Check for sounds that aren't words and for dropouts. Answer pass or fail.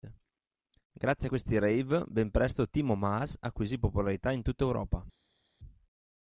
pass